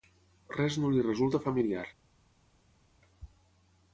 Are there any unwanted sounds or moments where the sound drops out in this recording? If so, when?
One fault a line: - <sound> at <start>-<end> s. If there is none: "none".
none